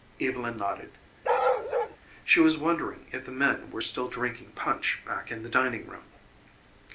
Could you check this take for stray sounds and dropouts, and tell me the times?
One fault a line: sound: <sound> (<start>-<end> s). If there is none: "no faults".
sound: bark (1.2-2.0 s)